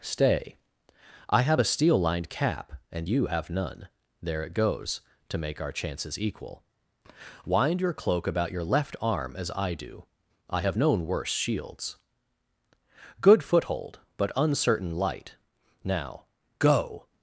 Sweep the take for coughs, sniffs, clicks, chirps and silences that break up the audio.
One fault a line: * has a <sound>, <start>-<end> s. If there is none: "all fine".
all fine